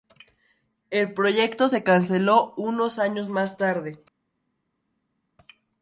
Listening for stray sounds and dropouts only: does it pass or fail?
pass